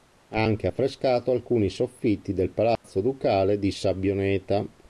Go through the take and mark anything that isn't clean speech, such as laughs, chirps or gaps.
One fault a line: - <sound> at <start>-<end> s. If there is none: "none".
- dropout at 2.8-2.8 s